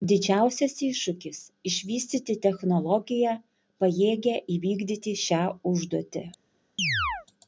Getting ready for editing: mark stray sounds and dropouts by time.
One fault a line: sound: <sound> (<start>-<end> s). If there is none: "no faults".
sound: chirp (6.8-7.3 s)